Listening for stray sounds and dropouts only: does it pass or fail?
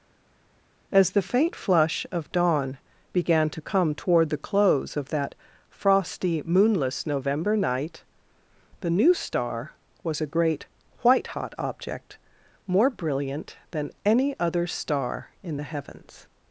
pass